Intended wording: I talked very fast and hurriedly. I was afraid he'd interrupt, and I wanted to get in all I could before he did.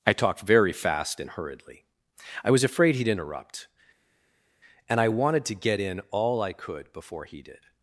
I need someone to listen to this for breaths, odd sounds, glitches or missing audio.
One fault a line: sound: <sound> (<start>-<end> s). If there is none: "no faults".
no faults